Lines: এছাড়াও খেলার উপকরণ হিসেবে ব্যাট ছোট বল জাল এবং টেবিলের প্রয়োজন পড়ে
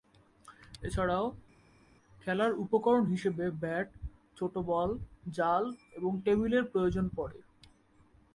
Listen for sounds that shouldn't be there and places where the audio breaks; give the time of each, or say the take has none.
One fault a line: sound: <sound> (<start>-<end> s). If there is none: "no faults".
no faults